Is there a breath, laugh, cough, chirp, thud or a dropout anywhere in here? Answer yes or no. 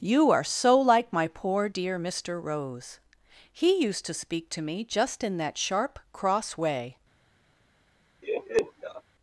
yes